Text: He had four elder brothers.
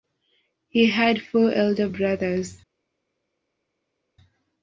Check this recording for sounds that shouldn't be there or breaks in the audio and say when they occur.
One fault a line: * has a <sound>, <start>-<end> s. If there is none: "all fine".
all fine